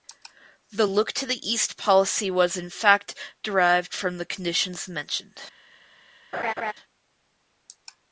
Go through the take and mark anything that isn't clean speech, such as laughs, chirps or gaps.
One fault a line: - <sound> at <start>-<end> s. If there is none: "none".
- laugh at 6.3-6.7 s